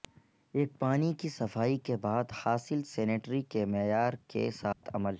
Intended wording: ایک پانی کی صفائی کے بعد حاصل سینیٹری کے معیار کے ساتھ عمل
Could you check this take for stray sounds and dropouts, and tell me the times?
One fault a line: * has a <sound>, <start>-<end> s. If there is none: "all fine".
* has a dropout, 4.7-4.8 s